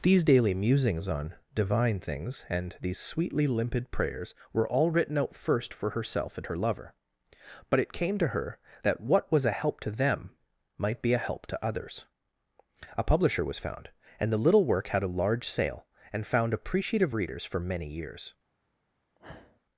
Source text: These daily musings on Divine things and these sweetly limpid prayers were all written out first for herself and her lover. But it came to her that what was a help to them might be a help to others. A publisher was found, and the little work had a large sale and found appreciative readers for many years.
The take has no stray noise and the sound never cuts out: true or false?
false